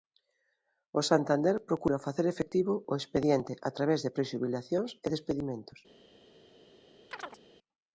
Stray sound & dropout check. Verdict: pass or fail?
fail